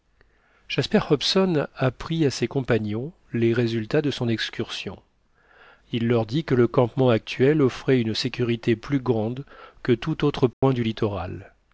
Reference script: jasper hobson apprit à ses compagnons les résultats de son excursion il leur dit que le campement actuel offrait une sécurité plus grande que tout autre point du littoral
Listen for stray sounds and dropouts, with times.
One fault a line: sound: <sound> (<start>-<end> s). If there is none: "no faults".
sound: dropout (10.5-10.6 s)